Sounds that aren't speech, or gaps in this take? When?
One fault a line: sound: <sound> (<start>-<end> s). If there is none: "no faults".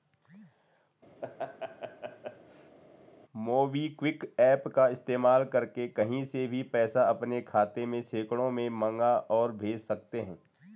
sound: laugh (1.2-2.8 s)